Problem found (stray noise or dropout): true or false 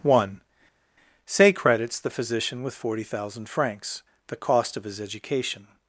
false